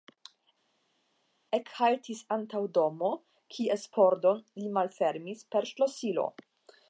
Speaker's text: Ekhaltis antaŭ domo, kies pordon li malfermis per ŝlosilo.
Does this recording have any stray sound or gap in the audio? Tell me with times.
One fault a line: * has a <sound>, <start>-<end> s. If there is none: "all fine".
all fine